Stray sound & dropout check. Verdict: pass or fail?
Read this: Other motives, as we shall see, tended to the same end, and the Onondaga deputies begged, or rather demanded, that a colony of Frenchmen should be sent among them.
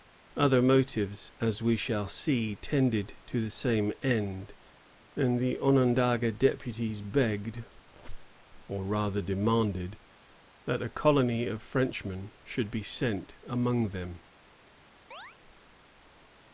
fail